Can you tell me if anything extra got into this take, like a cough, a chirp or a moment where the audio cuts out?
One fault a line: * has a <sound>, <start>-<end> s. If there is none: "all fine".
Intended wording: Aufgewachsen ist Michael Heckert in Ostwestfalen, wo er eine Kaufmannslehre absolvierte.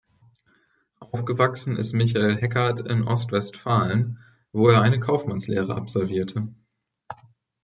all fine